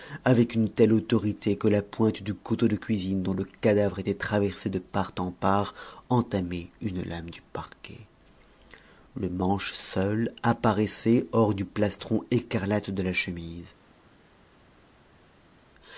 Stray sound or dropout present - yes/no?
no